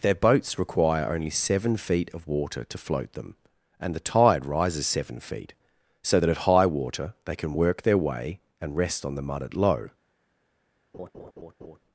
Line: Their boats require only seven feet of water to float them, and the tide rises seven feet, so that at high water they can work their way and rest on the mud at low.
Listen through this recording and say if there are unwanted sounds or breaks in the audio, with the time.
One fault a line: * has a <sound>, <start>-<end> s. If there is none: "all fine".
* has a laugh, 10.9-11.8 s